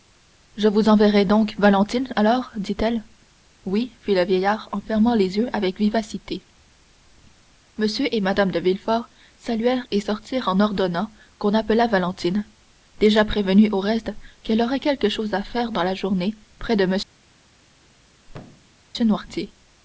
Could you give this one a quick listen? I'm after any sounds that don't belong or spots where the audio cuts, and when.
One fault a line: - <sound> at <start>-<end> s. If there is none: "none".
- thud at 18.3-18.8 s